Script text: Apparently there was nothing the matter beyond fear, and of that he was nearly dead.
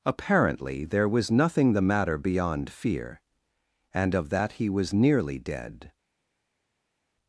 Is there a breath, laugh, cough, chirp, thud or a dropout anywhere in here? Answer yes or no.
no